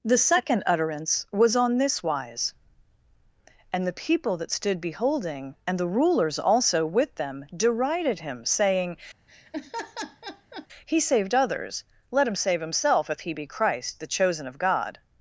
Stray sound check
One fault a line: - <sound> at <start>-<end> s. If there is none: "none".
- laugh at 9.3-10.7 s